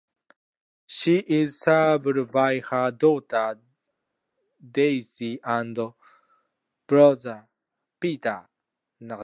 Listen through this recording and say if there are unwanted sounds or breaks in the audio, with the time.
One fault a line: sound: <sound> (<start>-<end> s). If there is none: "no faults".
no faults